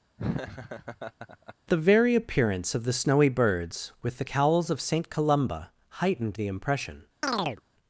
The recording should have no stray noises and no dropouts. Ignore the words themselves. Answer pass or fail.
fail